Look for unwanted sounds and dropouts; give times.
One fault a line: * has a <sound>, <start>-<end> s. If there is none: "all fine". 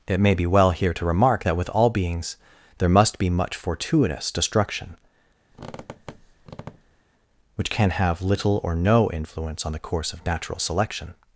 * has a squeak, 5.5-7.0 s